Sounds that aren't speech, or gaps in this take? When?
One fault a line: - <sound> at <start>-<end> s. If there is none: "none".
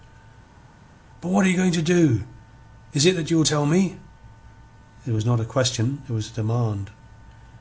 none